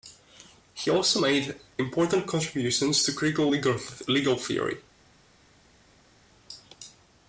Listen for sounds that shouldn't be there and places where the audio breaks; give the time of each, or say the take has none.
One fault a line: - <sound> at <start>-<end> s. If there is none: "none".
none